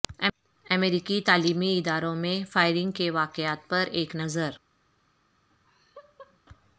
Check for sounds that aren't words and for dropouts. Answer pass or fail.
fail